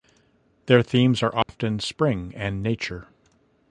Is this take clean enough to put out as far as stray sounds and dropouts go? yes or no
no